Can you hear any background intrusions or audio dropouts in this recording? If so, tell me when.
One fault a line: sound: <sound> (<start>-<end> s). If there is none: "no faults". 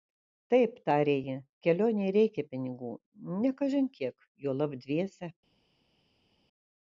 no faults